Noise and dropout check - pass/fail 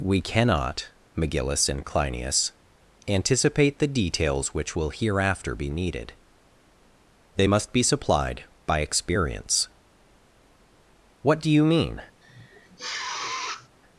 fail